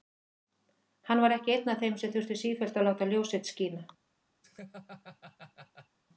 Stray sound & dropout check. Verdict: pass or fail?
fail